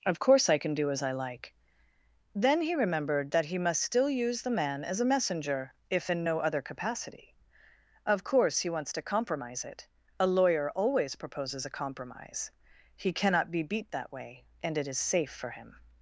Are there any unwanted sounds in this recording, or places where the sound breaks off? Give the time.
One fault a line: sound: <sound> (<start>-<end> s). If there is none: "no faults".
no faults